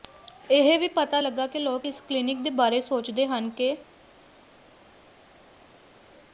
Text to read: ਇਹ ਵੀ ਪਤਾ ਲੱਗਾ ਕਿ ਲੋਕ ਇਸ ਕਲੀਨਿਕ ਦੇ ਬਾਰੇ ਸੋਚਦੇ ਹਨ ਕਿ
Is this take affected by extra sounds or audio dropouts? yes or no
no